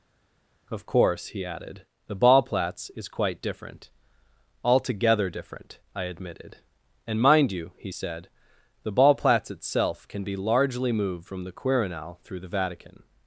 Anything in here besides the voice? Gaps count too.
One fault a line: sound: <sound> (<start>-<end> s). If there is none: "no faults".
no faults